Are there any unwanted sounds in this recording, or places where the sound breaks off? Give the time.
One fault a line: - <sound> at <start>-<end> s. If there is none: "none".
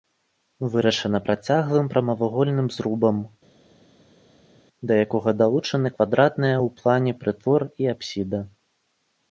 none